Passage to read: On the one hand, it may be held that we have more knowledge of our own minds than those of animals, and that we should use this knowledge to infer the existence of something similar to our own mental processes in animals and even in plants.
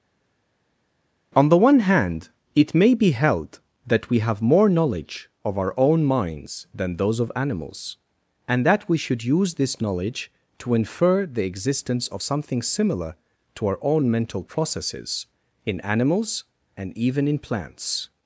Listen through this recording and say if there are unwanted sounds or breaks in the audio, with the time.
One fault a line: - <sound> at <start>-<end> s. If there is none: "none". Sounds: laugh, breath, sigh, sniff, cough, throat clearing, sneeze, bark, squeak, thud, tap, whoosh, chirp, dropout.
none